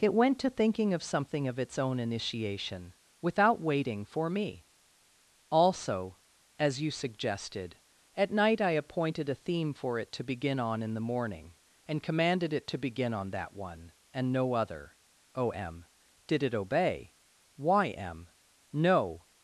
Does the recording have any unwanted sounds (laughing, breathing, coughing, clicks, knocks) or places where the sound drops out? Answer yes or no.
no